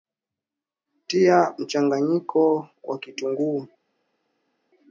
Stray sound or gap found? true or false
false